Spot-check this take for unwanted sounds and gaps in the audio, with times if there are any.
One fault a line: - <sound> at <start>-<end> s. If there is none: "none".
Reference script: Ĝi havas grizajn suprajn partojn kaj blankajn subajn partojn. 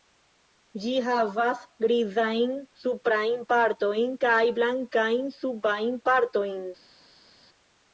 none